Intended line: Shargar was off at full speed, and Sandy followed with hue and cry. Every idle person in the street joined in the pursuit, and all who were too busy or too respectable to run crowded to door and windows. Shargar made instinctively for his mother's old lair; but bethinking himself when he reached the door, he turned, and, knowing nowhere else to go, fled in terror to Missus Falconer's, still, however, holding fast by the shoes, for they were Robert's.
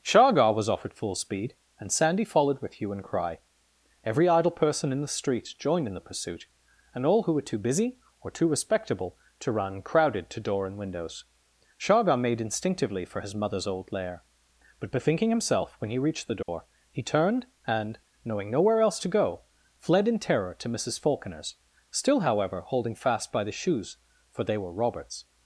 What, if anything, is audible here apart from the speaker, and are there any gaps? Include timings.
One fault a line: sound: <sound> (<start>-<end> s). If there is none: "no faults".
sound: dropout (16.4-16.5 s)